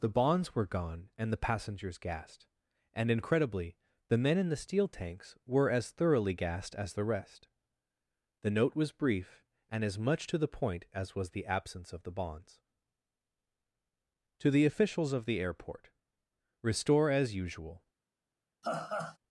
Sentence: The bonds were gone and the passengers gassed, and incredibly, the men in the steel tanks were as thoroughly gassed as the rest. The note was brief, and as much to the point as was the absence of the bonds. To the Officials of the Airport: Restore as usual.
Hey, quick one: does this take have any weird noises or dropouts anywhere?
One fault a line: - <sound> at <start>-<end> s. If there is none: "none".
- laugh at 18.6-19.2 s